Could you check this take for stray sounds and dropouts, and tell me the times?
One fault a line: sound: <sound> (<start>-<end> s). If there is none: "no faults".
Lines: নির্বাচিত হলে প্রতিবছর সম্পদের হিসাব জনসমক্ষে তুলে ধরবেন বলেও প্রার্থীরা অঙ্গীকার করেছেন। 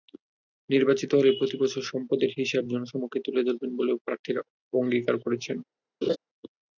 sound: laugh (6.0-6.2 s)